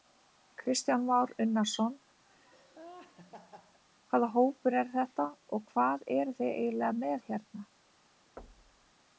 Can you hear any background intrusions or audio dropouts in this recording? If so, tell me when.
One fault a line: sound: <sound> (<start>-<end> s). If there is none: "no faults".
sound: laugh (2.3-3.8 s)
sound: thud (8.4-8.9 s)